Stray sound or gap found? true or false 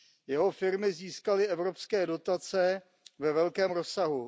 false